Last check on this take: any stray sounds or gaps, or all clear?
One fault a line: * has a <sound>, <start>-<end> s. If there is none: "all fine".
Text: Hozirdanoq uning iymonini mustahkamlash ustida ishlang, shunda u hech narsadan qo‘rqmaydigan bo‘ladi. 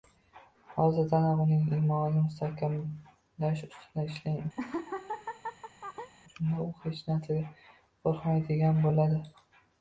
* has a laugh, 4.6-6.1 s